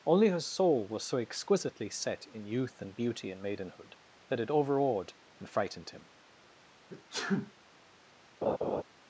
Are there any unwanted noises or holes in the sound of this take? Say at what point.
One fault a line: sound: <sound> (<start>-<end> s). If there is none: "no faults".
sound: sneeze (6.9-7.5 s)
sound: laugh (8.4-8.8 s)